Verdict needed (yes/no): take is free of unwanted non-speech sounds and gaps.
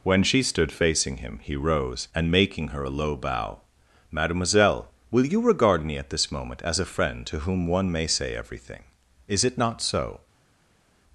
yes